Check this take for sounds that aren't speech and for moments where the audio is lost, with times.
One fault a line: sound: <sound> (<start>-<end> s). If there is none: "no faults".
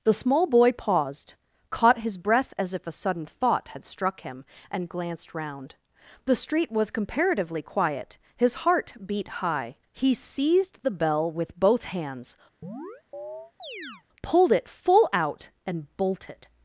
sound: chirp (12.6-14.0 s)